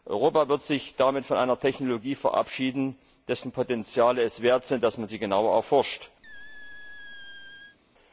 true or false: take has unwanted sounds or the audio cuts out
true